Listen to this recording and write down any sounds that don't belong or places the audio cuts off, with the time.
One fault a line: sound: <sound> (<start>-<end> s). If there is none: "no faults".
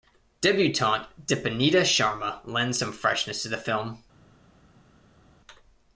no faults